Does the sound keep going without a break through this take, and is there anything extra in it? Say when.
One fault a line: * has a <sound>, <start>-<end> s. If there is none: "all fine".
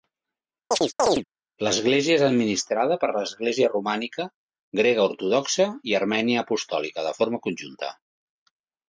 * has a chirp, 0.7-1.2 s